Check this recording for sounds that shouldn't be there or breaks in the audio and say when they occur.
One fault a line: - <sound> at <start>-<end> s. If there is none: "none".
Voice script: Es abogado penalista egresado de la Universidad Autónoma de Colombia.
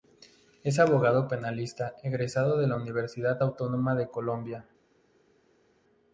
none